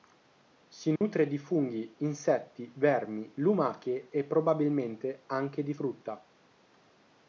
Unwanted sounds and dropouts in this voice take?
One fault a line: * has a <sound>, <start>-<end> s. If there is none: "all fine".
* has a dropout, 1.0-1.0 s